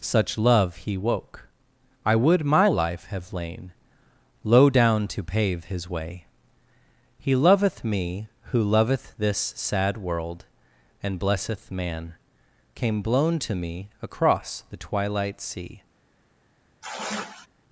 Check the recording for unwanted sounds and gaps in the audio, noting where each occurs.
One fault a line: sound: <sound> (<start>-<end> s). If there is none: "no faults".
sound: sigh (16.8-17.5 s)